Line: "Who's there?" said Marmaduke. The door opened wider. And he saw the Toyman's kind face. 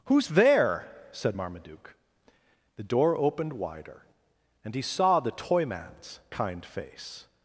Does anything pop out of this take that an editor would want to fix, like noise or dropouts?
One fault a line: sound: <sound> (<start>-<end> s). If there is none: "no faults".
no faults